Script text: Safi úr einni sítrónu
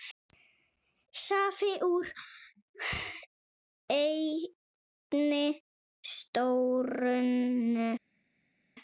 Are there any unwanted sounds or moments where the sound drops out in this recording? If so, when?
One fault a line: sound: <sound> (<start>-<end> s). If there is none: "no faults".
no faults